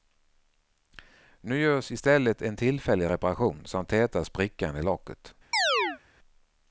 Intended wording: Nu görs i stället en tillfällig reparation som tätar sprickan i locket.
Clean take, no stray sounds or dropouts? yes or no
no